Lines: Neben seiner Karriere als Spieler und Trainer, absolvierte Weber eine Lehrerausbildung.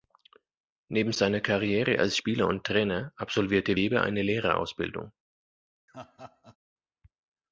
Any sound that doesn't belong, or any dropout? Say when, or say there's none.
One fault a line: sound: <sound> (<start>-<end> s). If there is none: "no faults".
sound: laugh (5.9-6.6 s)